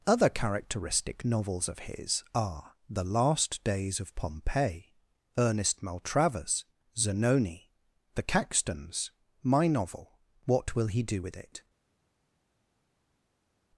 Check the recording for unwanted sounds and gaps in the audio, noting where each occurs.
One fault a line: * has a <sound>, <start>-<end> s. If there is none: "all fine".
all fine